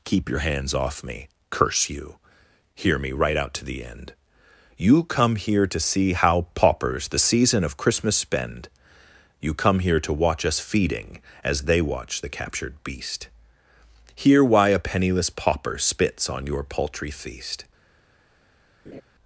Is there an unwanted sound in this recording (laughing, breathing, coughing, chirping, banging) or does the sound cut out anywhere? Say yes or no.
yes